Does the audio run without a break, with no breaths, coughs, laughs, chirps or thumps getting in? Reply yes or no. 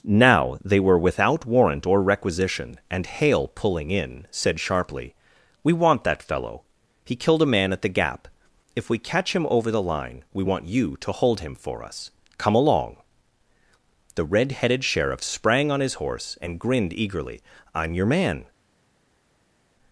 yes